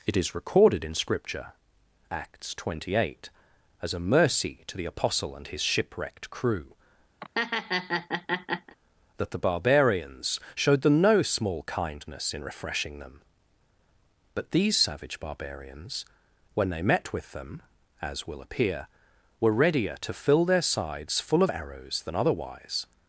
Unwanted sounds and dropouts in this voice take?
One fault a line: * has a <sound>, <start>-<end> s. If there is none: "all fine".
* has a laugh, 7.2-8.8 s